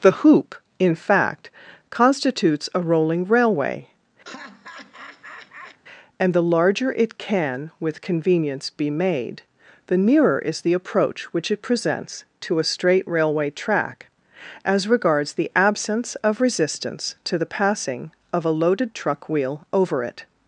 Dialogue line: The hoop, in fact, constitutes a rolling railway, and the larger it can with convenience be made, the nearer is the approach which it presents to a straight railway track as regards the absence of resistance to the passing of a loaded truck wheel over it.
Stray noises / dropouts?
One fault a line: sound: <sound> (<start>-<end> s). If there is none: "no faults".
sound: laugh (4.2-5.8 s)